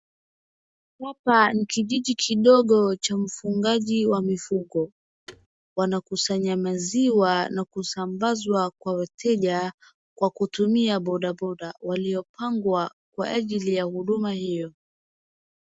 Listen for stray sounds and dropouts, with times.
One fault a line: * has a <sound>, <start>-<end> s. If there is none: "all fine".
* has a thud, 5.3-5.5 s